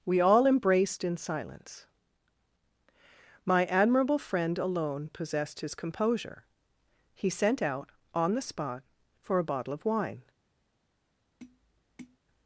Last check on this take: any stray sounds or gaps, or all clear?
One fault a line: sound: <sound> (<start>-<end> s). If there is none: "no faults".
sound: tap (11.4-12.2 s)